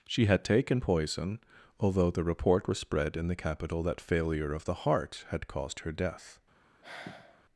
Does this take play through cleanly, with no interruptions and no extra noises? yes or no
no